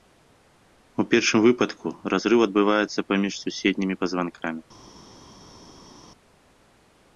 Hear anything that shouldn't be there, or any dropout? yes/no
no